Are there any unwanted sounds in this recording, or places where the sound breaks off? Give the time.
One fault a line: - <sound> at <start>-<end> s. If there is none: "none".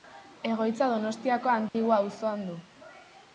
- dropout at 1.7-1.7 s